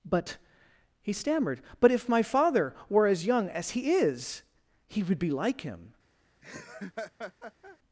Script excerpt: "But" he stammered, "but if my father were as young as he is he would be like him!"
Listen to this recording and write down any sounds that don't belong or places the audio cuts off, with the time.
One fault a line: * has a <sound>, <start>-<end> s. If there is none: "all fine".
* has a laugh, 6.4-7.8 s